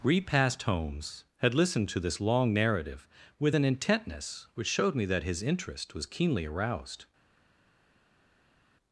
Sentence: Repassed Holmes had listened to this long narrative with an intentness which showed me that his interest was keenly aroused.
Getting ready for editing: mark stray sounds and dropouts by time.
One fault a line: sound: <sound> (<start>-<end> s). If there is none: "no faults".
no faults